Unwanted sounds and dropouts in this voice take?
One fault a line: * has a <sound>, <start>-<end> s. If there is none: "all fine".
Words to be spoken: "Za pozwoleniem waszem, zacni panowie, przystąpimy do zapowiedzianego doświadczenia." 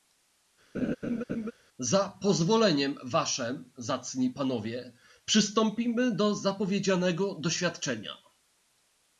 * has a laugh, 0.7-1.5 s